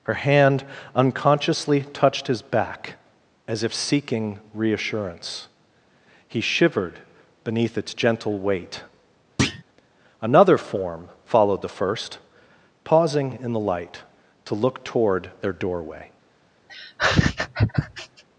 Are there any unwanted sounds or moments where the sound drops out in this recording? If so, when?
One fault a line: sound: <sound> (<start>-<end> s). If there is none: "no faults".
sound: thud (9.4-9.6 s)
sound: laugh (16.7-18.2 s)